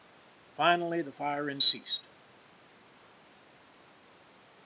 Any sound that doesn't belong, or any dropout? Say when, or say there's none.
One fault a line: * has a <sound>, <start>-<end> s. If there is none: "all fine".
all fine